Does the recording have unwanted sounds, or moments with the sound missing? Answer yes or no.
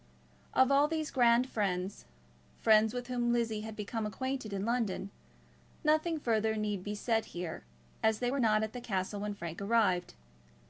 no